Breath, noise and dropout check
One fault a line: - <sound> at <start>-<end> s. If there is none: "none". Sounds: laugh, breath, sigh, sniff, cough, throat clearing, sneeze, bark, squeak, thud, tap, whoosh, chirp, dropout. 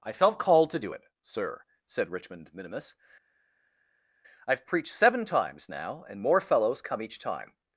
none